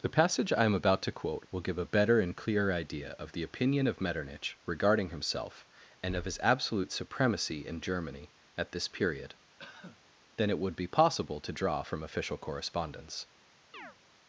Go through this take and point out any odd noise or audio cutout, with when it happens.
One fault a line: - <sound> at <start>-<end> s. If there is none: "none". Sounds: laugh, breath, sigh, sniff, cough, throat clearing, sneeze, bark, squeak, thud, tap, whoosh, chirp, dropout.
- cough at 9.6-10.0 s
- chirp at 13.7-14.0 s